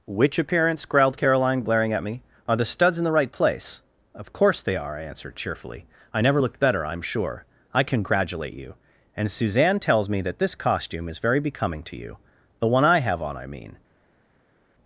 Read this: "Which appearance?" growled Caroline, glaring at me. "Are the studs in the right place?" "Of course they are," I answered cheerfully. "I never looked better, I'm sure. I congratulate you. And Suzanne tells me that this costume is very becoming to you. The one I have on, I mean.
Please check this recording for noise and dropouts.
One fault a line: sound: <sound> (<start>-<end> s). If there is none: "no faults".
no faults